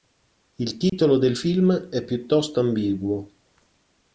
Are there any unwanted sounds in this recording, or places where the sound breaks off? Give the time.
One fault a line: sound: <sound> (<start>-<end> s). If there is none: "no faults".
sound: dropout (0.9-0.9 s)